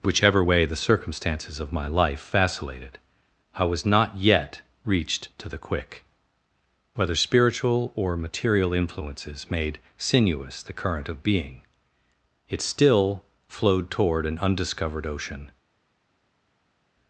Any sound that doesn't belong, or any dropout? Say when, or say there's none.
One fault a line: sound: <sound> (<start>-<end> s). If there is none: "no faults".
no faults